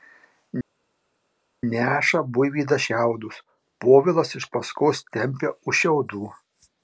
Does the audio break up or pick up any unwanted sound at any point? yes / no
no